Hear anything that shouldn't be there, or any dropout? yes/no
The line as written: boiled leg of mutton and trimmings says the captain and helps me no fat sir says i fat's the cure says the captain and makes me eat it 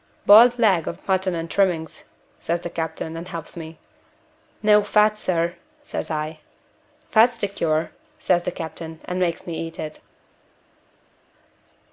no